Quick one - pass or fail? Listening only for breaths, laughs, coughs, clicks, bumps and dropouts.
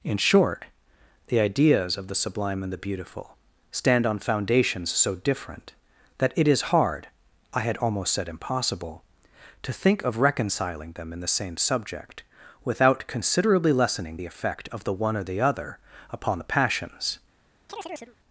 fail